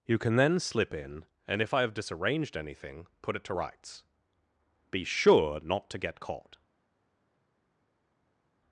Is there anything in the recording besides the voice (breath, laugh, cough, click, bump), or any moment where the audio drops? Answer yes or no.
no